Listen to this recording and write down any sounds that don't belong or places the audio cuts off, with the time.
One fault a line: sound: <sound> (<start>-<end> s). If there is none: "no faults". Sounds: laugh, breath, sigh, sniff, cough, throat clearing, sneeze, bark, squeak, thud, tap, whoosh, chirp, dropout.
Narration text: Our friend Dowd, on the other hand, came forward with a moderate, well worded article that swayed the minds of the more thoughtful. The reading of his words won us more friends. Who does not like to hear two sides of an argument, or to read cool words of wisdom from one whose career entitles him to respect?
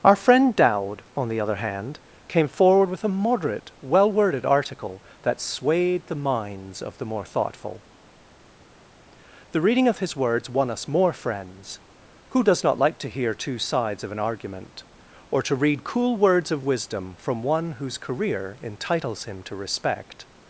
no faults